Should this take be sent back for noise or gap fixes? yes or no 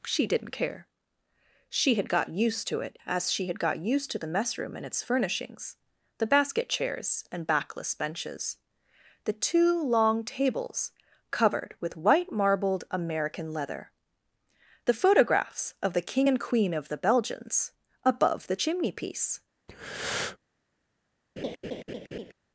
yes